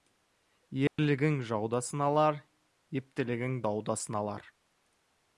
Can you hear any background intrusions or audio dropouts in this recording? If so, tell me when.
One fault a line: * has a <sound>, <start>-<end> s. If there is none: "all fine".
* has a dropout, 0.9-1.0 s